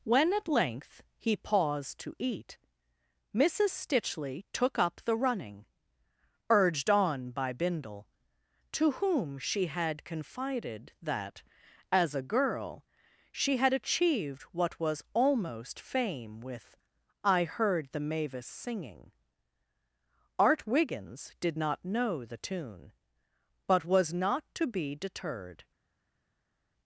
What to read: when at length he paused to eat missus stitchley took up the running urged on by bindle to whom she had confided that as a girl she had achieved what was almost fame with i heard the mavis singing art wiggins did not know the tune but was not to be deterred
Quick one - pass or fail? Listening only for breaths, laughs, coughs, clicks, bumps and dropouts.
pass